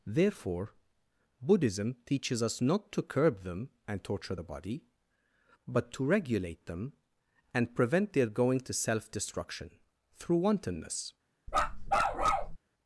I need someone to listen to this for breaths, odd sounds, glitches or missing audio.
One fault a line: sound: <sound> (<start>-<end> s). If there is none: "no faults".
sound: bark (11.5-12.6 s)